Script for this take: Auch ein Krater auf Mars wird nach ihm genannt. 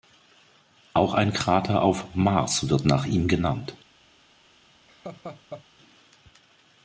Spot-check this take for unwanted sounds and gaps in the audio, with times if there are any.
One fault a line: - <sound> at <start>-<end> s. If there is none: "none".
- laugh at 4.9-5.7 s